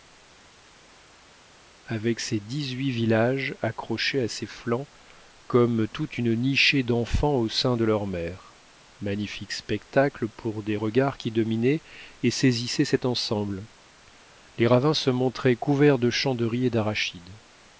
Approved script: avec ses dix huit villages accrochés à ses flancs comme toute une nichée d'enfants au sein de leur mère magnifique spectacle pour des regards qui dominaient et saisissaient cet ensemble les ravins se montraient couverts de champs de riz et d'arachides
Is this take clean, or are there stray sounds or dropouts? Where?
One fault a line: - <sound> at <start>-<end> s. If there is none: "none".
none